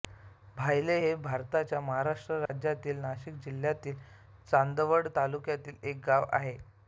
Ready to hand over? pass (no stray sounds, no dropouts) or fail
fail